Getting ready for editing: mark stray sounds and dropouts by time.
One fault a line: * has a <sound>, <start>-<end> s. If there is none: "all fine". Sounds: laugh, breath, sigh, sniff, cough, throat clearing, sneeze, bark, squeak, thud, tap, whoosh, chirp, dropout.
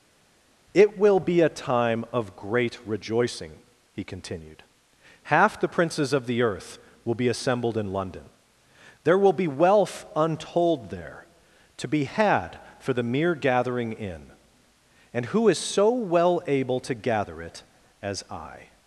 all fine